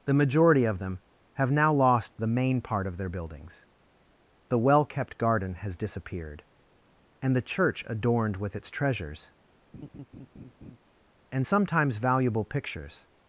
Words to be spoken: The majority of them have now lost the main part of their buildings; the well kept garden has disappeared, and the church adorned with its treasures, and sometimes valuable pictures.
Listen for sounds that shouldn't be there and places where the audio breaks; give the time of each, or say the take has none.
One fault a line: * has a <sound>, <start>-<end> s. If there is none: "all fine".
* has a laugh, 9.7-10.8 s